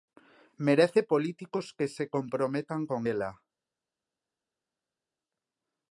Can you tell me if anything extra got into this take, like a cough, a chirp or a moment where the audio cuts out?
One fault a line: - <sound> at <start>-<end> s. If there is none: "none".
none